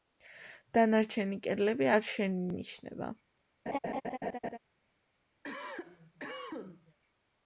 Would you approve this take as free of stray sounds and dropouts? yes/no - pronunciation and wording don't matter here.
no